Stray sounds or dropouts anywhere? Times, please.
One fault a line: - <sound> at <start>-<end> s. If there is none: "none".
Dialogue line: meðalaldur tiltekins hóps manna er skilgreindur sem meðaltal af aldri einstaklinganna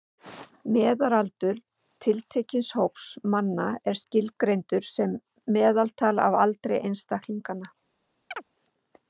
- chirp at 8.3-8.4 s